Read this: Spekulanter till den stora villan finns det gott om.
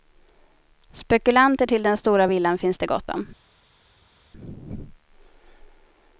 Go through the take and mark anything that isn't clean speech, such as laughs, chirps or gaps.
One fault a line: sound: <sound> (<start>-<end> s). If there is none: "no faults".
no faults